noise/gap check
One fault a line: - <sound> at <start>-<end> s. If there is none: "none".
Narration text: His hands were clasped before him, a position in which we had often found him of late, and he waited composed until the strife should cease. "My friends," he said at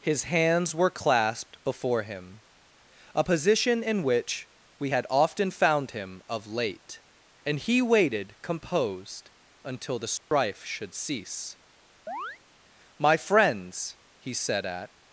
- dropout at 10.2-10.3 s
- chirp at 12.1-12.4 s